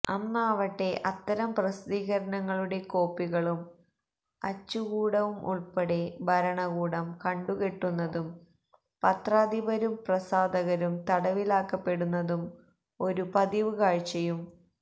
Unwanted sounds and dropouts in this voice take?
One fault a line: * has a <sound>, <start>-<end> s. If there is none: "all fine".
all fine